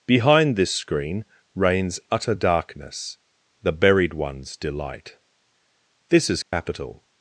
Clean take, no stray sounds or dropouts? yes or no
no